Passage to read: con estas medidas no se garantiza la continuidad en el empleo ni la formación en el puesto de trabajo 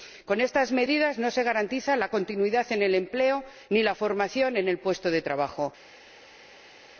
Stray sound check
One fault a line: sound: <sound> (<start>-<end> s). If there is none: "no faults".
no faults